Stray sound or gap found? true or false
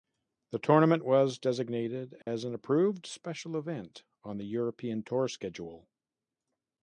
true